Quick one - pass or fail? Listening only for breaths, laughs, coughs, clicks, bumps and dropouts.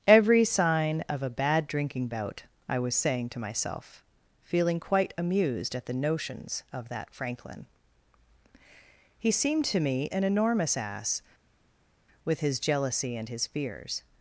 pass